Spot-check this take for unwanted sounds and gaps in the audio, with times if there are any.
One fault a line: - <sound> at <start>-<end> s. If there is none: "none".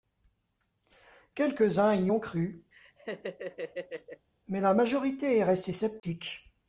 - laugh at 2.7-4.3 s
- dropout at 6.0-6.0 s